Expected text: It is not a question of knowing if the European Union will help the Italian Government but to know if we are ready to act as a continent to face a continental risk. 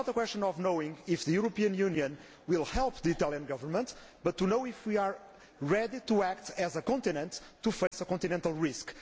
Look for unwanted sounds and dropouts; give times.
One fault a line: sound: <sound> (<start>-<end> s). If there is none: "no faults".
sound: dropout (7.9-7.9 s)